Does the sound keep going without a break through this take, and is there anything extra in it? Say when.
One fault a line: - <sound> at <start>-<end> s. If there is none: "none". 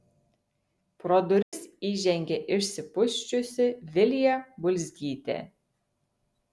- dropout at 1.4-1.5 s